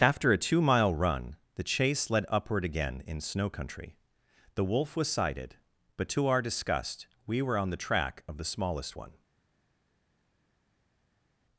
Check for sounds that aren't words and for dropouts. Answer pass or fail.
pass